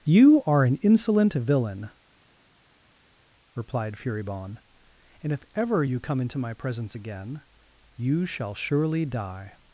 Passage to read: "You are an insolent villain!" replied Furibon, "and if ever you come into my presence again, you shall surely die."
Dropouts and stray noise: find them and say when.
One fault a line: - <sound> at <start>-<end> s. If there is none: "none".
none